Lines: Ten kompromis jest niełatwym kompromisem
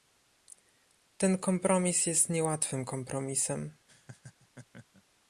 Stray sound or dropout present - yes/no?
yes